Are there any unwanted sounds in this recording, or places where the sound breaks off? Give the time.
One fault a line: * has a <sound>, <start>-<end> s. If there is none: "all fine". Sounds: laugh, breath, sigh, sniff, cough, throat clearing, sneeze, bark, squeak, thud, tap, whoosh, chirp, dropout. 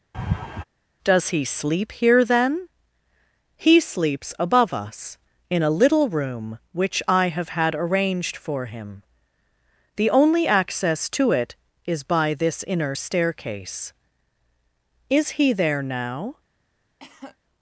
* has a laugh, 0.1-0.6 s
* has a cough, 17.0-17.4 s